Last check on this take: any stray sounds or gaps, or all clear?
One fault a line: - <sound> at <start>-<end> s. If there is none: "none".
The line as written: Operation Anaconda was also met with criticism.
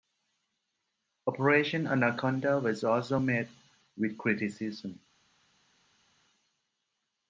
none